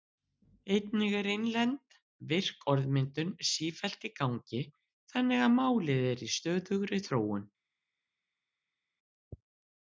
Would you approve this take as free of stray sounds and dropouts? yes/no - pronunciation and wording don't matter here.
yes